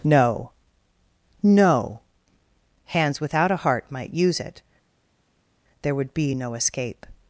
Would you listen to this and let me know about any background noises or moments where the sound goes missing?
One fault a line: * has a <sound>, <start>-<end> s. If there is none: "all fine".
all fine